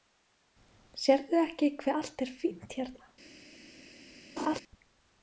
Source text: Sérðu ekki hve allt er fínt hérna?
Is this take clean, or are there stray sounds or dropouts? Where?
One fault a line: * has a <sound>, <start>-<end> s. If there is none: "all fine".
* has a laugh, 4.4-4.6 s